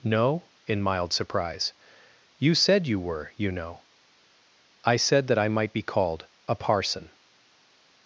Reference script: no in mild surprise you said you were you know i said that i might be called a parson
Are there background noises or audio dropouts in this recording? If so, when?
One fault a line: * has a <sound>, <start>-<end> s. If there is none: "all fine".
all fine